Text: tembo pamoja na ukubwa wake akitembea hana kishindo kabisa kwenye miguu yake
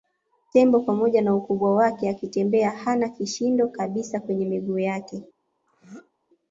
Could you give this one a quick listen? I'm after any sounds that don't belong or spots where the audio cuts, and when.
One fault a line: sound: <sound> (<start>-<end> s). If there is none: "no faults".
sound: throat clearing (5.7-6.1 s)